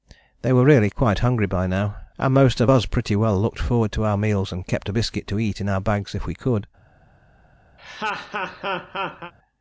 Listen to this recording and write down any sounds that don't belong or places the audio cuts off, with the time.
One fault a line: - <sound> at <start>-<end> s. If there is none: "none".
- laugh at 7.8-9.3 s